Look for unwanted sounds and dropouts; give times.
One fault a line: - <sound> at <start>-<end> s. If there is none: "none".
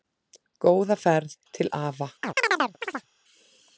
- chirp at 2.2-3.1 s